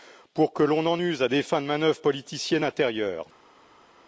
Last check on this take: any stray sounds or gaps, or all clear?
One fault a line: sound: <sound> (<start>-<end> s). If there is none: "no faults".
no faults